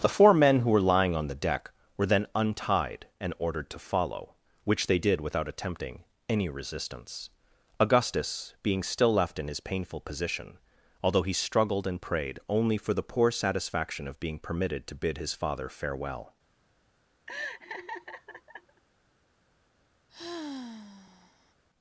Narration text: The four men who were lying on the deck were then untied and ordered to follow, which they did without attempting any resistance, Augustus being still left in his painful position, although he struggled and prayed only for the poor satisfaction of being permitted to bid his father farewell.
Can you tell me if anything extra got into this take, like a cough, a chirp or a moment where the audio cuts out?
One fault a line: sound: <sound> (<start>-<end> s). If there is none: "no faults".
sound: laugh (17.3-18.8 s)
sound: sigh (20.1-21.5 s)